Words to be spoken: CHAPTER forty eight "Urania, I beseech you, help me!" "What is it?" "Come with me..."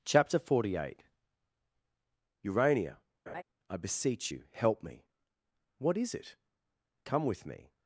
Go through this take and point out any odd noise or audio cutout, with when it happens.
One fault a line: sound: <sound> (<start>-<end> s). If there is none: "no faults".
sound: laugh (3.3-3.4 s)